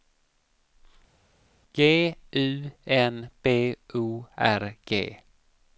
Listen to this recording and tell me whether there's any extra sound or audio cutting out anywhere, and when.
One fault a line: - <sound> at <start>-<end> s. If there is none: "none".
none